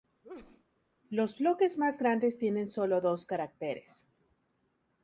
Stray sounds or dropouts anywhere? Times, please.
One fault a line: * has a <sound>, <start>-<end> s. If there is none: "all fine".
* has a sneeze, 0.2-0.6 s